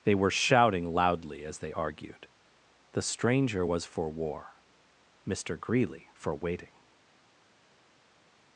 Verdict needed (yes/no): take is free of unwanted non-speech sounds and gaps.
yes